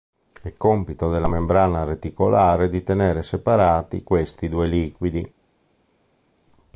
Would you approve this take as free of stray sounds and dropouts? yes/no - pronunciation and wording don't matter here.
yes